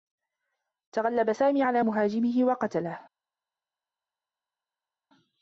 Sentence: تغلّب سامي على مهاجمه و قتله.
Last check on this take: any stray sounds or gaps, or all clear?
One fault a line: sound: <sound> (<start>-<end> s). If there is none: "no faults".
no faults